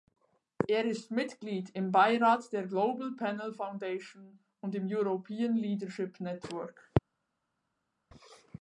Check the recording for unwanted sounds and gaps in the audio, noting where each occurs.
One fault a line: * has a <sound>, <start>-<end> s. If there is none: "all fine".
all fine